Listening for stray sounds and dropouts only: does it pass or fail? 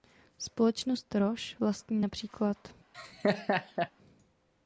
fail